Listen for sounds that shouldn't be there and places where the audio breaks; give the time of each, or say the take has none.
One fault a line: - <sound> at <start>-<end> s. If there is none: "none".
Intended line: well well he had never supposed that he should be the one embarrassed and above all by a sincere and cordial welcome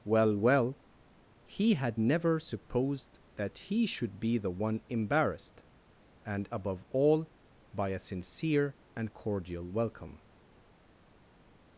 none